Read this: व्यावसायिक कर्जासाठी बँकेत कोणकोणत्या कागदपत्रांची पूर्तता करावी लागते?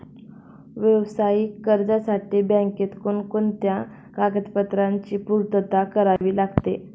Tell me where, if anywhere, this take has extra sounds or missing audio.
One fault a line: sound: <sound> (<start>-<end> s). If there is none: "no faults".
sound: dropout (6.2-6.2 s)